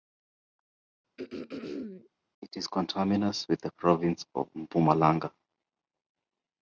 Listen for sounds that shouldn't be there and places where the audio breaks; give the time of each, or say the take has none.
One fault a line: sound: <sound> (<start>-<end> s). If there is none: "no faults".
sound: throat clearing (1.2-2.1 s)